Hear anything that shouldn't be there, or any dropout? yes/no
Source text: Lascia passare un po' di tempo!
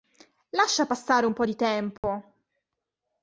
yes